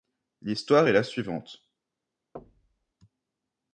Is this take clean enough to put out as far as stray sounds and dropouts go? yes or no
no